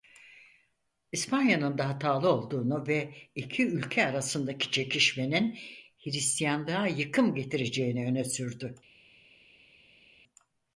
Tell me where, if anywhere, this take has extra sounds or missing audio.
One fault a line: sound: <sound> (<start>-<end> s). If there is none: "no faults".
no faults